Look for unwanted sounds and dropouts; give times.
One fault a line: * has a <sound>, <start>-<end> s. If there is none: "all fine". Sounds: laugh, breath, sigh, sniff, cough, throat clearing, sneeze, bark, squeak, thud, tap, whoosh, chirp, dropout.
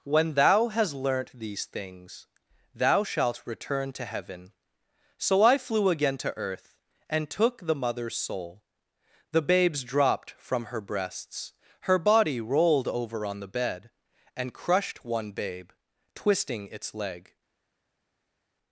all fine